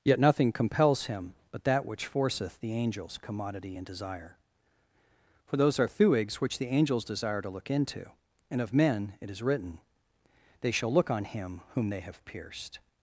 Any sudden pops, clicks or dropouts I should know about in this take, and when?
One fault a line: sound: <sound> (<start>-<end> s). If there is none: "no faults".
no faults